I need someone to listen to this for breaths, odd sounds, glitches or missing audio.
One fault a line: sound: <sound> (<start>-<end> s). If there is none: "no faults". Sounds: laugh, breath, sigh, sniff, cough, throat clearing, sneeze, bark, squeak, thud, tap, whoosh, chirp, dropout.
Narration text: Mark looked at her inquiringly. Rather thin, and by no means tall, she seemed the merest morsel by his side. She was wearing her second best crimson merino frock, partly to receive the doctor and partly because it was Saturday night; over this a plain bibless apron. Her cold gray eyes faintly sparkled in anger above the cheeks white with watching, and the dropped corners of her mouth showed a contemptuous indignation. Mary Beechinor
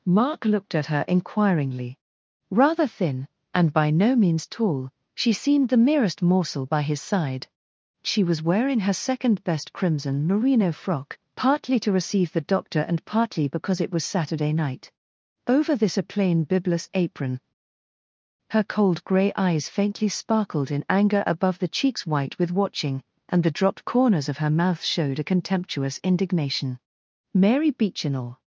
no faults